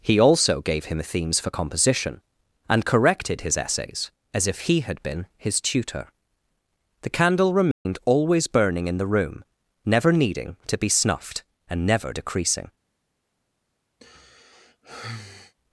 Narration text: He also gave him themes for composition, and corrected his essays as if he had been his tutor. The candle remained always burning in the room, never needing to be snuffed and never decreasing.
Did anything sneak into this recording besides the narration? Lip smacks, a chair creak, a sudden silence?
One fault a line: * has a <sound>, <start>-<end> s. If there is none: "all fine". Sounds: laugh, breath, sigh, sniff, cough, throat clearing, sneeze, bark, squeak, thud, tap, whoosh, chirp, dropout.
* has a dropout, 7.7-7.9 s
* has a sigh, 14.0-15.5 s